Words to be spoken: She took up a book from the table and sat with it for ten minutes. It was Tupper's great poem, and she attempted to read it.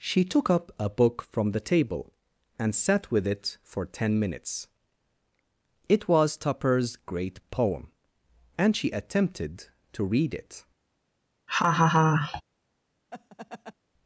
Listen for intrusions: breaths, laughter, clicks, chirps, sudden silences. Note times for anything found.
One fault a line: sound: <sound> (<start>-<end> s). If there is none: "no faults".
sound: laugh (11.5-12.4 s)
sound: laugh (13.1-13.7 s)